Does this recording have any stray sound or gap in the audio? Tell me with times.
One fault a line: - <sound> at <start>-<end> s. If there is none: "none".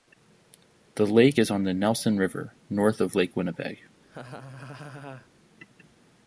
- laugh at 4.0-5.3 s